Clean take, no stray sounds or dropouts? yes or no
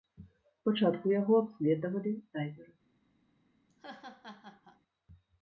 no